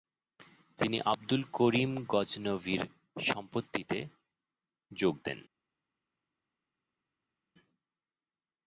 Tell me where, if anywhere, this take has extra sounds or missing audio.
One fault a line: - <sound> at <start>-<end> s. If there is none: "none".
none